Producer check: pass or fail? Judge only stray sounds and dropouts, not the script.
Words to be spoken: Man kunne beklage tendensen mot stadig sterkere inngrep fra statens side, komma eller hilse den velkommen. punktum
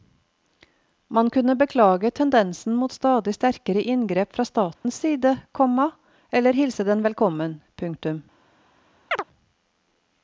fail